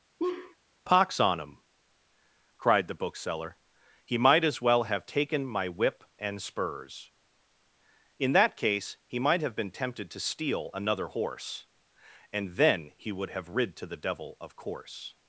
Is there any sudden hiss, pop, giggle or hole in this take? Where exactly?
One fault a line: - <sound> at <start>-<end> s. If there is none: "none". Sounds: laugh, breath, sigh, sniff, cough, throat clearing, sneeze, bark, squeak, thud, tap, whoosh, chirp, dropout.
- laugh at 0.2-0.6 s